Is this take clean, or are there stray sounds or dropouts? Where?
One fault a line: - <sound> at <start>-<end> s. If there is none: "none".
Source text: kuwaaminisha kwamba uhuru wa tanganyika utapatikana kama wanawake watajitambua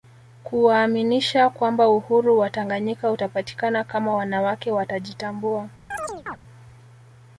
- chirp at 5.9-6.4 s